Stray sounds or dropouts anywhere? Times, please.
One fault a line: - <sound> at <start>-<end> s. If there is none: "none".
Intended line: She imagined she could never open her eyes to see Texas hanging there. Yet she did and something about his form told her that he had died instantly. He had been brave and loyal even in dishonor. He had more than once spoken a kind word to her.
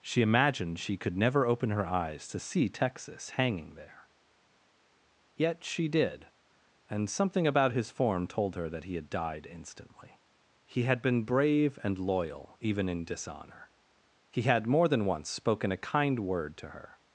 none